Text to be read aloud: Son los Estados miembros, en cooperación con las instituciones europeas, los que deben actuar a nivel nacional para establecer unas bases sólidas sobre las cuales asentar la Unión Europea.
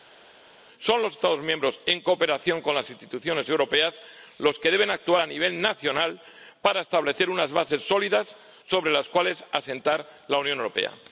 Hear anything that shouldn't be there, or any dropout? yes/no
no